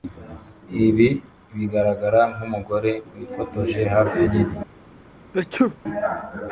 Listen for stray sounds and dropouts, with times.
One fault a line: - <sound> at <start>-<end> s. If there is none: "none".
- sneeze at 5.3-5.8 s